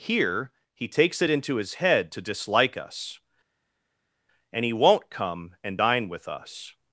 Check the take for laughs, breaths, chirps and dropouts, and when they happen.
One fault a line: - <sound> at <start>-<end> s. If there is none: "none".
none